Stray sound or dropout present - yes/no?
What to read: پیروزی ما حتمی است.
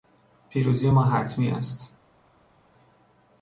no